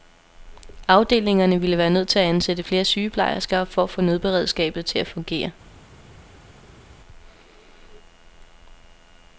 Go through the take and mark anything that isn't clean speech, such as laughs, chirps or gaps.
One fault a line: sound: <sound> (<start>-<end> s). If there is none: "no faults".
no faults